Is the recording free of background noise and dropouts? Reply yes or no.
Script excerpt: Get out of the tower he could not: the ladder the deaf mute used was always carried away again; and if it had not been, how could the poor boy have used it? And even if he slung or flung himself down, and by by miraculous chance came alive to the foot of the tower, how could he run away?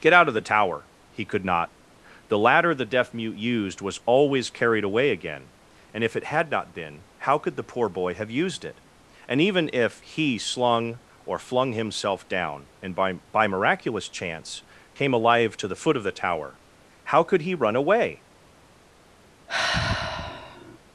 no